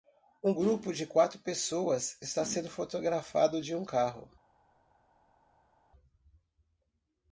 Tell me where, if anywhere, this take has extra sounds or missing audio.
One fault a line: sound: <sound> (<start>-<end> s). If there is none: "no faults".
no faults